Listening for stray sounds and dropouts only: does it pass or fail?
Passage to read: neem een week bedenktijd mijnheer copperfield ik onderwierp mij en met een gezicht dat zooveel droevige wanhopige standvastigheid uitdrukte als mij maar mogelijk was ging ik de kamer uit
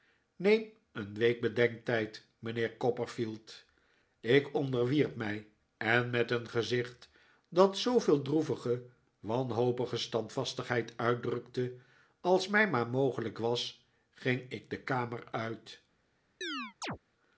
fail